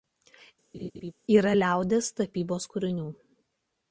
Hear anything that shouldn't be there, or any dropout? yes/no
yes